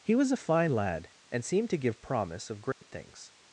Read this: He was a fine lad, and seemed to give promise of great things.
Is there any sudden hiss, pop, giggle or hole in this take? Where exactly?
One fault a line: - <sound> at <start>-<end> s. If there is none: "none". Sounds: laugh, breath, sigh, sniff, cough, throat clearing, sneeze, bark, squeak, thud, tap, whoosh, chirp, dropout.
- dropout at 2.7-2.8 s